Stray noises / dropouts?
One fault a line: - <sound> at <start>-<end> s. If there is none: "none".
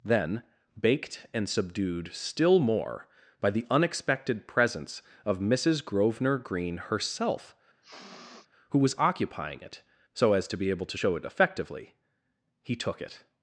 - sniff at 7.8-8.5 s